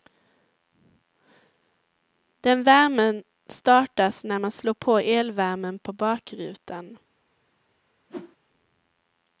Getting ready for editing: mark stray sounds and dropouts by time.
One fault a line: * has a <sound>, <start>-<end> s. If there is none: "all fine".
* has a whoosh, 8.1-8.4 s